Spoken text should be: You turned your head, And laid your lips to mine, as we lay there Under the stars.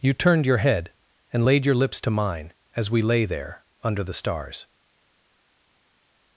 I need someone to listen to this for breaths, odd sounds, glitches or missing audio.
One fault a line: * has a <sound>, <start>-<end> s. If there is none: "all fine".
all fine